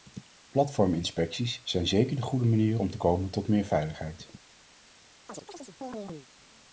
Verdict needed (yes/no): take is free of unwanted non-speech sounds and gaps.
no